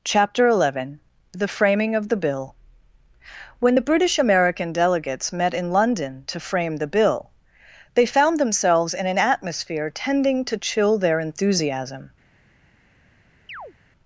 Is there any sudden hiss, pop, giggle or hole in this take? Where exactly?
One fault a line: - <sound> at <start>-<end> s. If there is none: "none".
- chirp at 13.5-13.7 s